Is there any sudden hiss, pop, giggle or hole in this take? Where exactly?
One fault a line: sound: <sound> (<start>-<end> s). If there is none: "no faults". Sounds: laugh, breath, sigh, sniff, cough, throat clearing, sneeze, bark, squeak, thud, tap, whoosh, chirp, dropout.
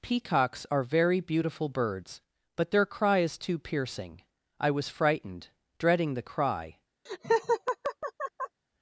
sound: laugh (7.1-8.6 s)